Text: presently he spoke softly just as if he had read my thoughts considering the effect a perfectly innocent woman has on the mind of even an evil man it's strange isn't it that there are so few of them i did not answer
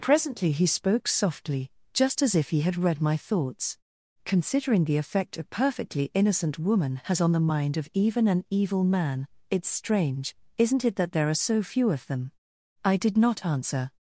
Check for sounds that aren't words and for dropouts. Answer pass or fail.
pass